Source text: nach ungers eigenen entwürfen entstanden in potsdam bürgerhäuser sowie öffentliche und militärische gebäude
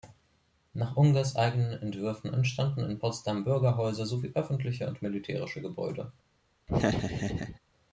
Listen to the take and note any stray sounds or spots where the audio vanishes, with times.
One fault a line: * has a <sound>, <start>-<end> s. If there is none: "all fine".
* has a laugh, 6.7-7.6 s